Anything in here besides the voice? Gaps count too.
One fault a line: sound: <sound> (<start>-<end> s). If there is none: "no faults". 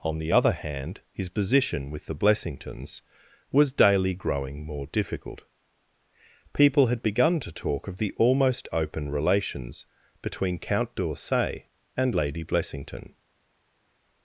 no faults